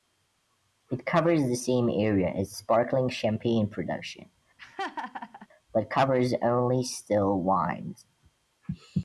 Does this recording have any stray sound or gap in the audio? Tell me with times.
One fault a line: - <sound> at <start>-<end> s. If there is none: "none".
- laugh at 4.6-5.5 s